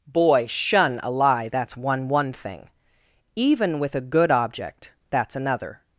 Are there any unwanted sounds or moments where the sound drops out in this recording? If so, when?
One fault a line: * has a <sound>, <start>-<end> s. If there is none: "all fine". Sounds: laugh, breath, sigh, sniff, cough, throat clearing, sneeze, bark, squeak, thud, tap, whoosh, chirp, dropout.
all fine